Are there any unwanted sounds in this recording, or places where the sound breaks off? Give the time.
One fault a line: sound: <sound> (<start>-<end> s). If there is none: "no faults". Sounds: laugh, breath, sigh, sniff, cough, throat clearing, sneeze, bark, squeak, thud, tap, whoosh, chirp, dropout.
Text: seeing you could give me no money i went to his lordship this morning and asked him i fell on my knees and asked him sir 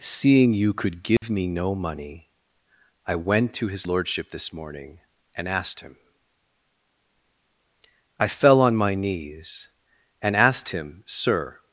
sound: dropout (1.2-1.2 s)